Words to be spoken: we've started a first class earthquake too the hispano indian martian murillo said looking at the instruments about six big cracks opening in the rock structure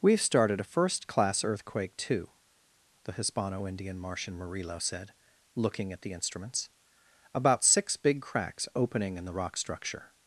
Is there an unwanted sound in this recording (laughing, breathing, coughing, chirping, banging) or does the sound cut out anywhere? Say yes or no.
no